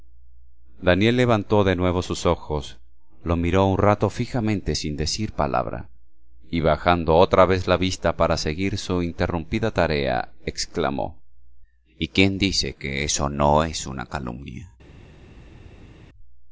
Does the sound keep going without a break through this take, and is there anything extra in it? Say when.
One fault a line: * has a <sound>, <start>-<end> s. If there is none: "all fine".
all fine